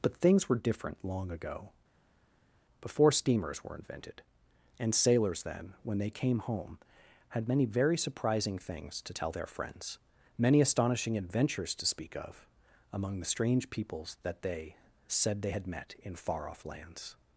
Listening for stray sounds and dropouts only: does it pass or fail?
pass